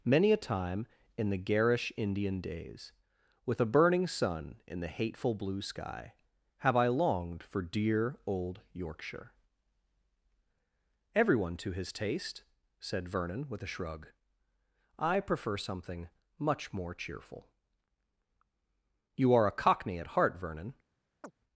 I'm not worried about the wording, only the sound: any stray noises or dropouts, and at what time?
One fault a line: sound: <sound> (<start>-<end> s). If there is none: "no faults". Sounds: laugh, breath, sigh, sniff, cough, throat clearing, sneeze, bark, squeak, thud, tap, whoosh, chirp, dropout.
sound: chirp (21.2-21.3 s)